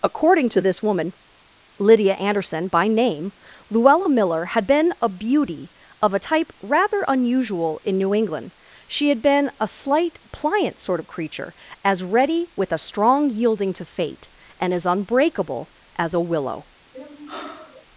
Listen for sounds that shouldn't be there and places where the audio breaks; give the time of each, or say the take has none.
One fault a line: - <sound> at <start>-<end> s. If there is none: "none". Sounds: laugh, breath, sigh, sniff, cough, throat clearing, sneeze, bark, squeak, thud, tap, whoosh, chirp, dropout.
- sigh at 16.9-17.9 s